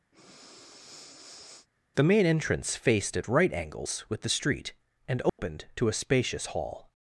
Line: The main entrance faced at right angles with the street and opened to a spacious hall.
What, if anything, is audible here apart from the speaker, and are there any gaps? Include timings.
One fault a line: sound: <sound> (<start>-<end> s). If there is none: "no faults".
sound: breath (0.1-1.7 s)
sound: dropout (5.3-5.4 s)